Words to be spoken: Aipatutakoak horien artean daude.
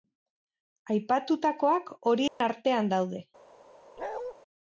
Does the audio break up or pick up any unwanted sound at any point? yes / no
yes